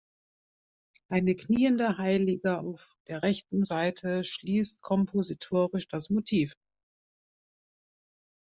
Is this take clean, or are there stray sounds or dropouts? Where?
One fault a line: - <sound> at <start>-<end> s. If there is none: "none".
none